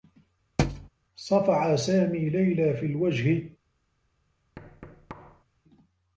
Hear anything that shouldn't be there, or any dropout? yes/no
yes